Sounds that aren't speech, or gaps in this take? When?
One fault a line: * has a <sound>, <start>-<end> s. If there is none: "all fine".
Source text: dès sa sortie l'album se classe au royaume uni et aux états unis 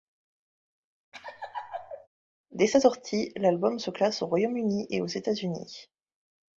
* has a laugh, 1.1-2.1 s